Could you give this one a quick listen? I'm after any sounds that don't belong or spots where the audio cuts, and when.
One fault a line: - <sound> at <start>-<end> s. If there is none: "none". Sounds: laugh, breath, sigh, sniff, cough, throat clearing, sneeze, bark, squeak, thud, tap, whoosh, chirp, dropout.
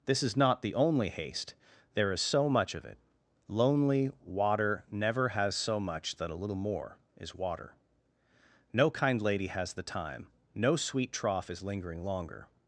none